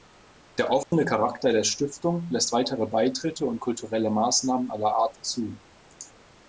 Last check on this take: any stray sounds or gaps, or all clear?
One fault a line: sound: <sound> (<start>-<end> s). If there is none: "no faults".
sound: dropout (0.8-0.9 s)